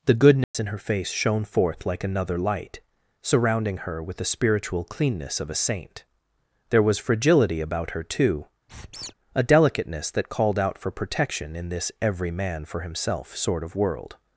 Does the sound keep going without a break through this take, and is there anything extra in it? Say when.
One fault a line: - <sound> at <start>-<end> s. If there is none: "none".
- dropout at 0.4-0.5 s
- squeak at 8.7-9.1 s